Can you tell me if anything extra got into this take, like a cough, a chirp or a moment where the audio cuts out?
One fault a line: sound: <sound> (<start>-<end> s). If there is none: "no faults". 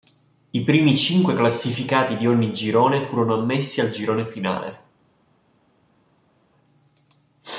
no faults